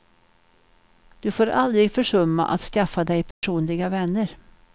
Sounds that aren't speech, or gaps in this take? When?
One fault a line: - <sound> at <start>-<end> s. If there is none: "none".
- dropout at 3.3-3.4 s